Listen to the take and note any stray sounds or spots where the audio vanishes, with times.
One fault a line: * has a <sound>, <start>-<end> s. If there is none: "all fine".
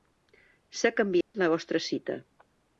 * has a dropout, 1.2-1.3 s